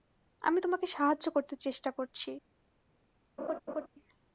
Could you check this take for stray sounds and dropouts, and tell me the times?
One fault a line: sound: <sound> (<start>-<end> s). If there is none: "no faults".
sound: laugh (3.4-3.9 s)